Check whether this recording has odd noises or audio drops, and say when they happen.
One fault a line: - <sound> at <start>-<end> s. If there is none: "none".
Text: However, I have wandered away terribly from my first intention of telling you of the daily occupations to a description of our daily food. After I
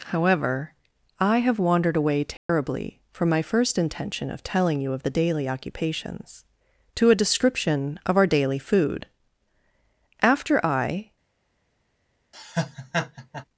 - dropout at 2.4-2.5 s
- laugh at 12.3-13.5 s